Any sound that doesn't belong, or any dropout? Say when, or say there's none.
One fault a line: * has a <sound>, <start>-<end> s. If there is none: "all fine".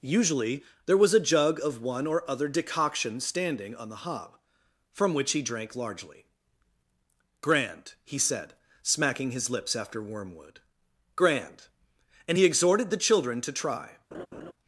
* has a laugh, 14.1-14.5 s